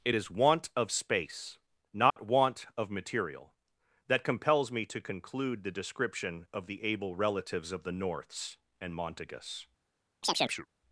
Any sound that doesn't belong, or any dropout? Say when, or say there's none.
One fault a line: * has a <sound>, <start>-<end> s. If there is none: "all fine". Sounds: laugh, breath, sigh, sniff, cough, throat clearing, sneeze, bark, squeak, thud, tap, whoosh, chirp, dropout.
* has a dropout, 2.1-2.2 s
* has a chirp, 10.2-10.7 s